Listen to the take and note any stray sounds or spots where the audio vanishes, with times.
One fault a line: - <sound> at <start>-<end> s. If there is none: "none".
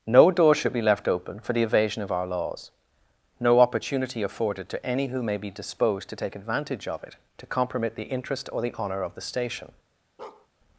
- bark at 10.2-10.5 s